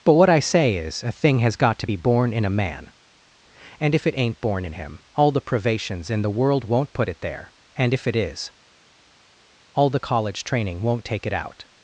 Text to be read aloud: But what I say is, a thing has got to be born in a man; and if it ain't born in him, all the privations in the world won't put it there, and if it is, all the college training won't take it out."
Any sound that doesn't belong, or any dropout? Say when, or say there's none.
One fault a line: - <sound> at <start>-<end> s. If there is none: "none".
none